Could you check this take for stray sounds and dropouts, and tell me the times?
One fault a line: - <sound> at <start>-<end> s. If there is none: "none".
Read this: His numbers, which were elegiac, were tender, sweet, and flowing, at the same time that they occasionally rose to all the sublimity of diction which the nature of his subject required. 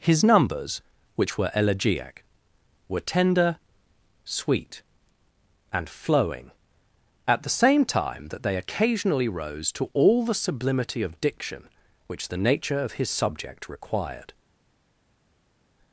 none